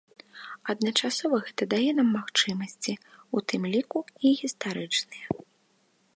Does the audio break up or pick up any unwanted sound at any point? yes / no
no